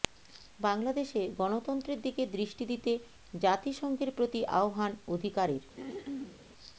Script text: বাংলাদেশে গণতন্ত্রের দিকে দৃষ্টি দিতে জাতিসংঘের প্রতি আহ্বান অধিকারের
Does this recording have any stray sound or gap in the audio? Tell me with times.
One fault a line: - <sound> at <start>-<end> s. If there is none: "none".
- throat clearing at 5.8-6.4 s